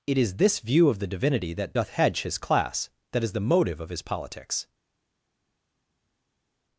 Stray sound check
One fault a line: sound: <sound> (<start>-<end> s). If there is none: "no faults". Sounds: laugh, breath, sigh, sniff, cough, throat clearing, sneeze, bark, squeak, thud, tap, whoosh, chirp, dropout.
no faults